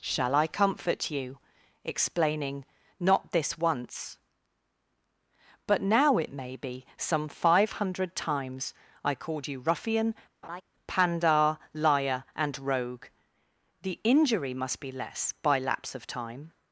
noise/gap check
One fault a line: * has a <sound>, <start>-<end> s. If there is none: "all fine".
* has a laugh, 10.4-10.6 s